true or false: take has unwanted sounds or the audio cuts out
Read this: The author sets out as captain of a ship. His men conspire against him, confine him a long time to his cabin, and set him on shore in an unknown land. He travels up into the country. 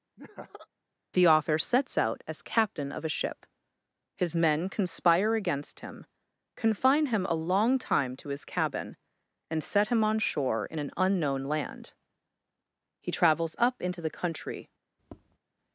true